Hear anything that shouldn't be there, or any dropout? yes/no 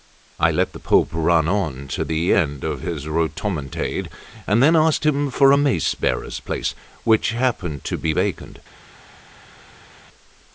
no